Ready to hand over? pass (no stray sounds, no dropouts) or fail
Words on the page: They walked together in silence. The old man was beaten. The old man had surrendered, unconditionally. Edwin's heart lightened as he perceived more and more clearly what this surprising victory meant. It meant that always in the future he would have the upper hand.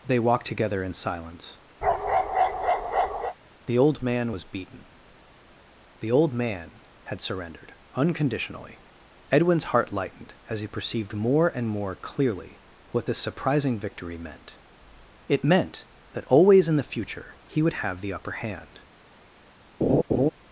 fail